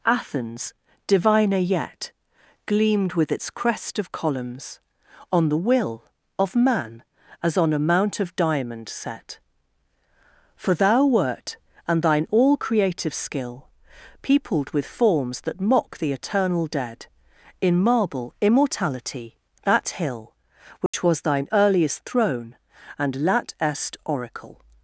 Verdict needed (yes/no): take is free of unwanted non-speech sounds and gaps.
no